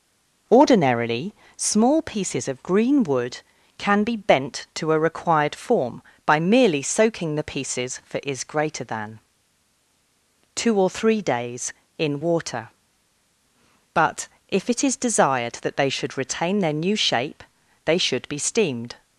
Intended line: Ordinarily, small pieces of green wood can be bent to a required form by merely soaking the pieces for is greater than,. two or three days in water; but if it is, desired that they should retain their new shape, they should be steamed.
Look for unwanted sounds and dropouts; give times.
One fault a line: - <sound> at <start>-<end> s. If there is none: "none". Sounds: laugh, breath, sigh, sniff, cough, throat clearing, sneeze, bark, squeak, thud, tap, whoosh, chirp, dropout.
none